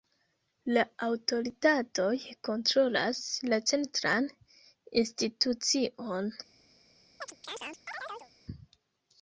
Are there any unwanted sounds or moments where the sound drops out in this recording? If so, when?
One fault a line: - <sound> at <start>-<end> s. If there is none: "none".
- chirp at 7.2-8.3 s